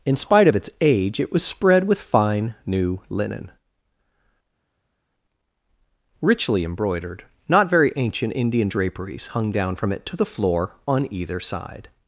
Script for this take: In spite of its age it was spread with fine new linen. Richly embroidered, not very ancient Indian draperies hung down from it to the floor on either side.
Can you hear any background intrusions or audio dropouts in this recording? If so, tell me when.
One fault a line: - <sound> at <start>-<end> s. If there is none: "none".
none